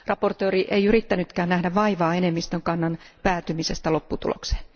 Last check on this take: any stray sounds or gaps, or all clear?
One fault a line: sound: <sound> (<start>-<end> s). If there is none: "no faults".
no faults